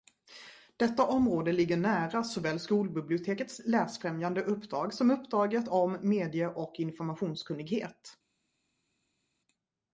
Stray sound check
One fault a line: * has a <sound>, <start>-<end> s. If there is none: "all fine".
all fine